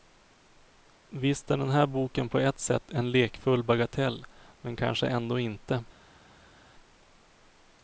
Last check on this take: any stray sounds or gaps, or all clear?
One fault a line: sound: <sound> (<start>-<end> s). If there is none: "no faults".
no faults